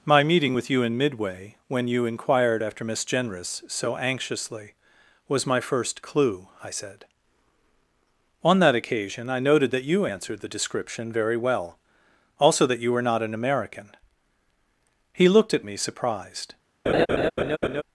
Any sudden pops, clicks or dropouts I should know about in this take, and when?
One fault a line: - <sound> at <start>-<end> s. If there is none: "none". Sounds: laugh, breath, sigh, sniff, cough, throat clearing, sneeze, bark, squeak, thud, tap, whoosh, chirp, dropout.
- laugh at 16.9-17.8 s